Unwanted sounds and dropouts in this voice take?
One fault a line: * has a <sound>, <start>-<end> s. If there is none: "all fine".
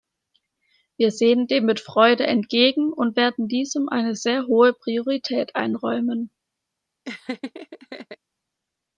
* has a laugh, 7.0-8.2 s